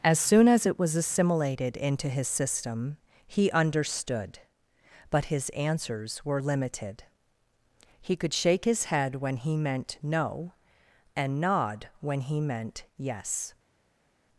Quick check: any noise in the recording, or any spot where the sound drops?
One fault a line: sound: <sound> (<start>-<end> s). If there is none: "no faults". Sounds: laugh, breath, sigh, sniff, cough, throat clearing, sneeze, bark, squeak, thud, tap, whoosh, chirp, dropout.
no faults